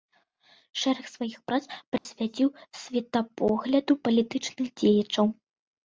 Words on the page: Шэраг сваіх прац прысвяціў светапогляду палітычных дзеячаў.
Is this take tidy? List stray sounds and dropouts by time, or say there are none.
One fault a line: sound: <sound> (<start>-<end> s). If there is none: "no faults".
sound: dropout (2.0-2.1 s)